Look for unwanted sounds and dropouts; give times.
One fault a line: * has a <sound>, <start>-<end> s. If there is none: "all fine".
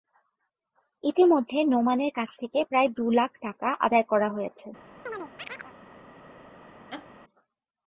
* has a chirp, 5.1-5.7 s
* has a laugh, 6.9-7.1 s